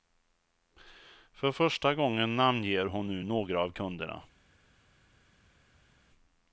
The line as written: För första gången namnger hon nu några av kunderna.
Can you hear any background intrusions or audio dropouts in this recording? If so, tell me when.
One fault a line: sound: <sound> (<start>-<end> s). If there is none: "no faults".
no faults